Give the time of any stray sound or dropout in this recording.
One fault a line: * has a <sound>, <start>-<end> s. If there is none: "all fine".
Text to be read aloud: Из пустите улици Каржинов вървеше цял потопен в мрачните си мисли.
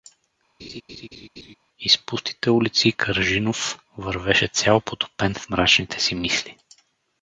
* has a laugh, 0.6-1.6 s